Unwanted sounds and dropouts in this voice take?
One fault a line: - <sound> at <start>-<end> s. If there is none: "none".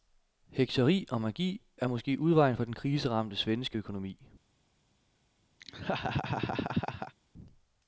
- laugh at 5.6-7.1 s